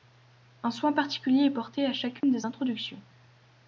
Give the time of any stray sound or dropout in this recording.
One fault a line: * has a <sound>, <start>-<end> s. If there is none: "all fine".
* has a dropout, 2.2-2.2 s